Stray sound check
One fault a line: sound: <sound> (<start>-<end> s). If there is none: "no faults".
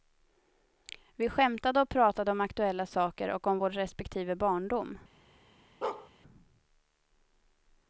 sound: bark (5.8-6.1 s)